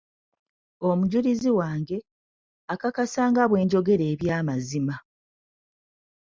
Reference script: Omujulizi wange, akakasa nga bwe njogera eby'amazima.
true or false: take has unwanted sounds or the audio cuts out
false